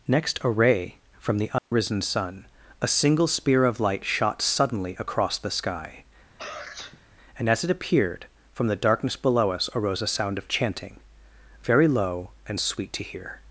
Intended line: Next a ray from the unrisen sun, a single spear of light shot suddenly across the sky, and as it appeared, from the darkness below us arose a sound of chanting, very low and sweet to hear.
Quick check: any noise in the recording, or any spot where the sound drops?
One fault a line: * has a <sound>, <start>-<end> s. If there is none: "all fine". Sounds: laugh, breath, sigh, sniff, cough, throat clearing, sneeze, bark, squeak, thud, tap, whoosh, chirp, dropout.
* has a dropout, 1.6-1.7 s
* has a sneeze, 6.4-7.1 s